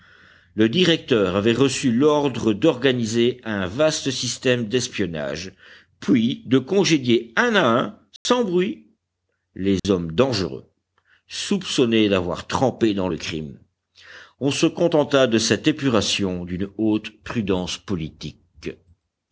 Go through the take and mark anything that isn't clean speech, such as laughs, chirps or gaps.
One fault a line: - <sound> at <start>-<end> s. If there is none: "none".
- dropout at 8.2-8.3 s
- dropout at 9.8-9.8 s